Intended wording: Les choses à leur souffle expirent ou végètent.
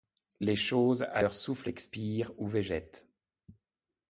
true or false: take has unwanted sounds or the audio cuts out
false